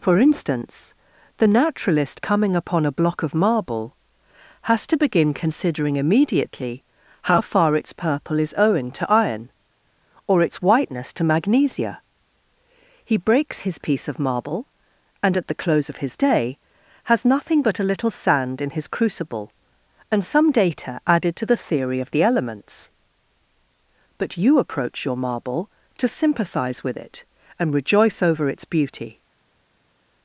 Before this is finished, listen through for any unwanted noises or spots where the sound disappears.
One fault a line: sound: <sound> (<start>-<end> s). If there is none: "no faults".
no faults